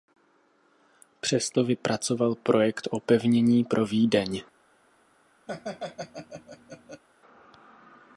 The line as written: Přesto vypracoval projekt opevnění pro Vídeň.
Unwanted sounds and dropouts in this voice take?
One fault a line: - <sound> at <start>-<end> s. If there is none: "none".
- laugh at 5.5-7.0 s